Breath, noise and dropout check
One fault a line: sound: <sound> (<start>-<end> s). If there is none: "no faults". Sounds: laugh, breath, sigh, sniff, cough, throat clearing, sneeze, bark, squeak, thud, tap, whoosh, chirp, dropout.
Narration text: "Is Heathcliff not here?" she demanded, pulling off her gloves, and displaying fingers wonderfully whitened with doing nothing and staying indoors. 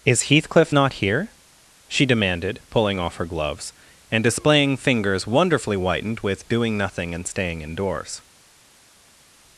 no faults